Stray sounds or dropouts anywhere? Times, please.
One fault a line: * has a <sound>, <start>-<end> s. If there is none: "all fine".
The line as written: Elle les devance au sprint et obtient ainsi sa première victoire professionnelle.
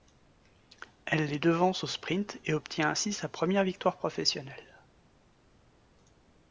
all fine